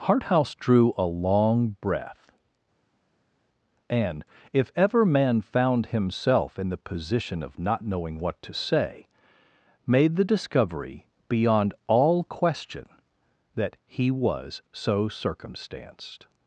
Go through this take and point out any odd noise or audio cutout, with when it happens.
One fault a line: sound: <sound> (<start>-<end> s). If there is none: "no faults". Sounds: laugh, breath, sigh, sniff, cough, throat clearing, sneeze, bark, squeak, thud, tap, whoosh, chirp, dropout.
no faults